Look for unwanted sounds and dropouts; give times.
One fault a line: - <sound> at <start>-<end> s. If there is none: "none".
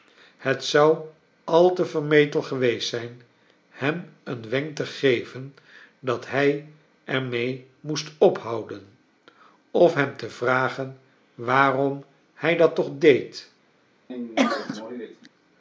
- sneeze at 14.1-15.3 s